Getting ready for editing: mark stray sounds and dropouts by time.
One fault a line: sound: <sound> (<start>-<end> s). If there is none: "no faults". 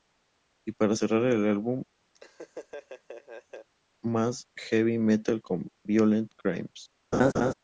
sound: laugh (2.1-3.7 s)
sound: laugh (7.1-7.5 s)